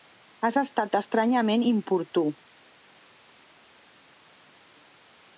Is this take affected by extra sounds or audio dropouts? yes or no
no